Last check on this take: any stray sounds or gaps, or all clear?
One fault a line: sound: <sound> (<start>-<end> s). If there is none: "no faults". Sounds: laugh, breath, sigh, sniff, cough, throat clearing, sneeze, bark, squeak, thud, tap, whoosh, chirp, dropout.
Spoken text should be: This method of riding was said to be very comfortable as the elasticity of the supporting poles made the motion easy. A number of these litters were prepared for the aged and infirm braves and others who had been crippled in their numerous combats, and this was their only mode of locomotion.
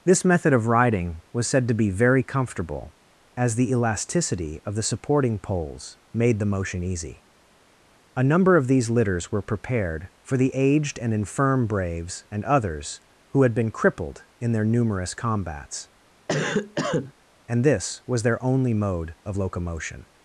sound: cough (16.3-17.1 s)